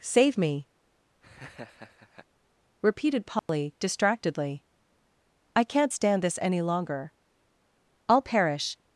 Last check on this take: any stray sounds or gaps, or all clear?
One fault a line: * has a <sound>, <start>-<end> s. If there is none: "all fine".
* has a laugh, 1.2-2.3 s
* has a dropout, 3.4-3.5 s